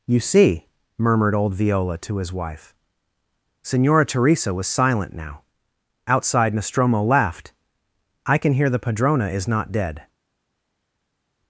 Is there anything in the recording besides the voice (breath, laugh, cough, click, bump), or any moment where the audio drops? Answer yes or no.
no